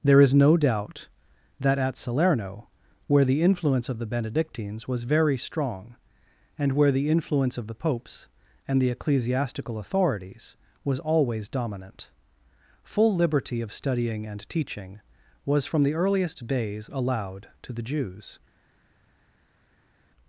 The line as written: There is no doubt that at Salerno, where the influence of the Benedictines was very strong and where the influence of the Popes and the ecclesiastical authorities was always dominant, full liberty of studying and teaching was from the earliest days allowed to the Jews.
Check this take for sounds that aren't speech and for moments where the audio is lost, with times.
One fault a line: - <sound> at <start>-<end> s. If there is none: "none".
none